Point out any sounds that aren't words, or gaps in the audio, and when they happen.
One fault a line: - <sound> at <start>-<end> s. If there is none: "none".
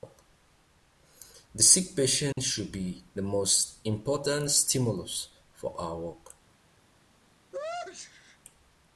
- dropout at 2.3-2.4 s
- sneeze at 7.5-8.4 s